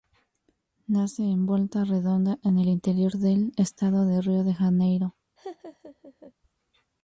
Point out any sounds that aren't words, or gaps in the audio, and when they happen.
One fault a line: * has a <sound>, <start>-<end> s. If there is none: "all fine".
* has a laugh, 5.4-6.3 s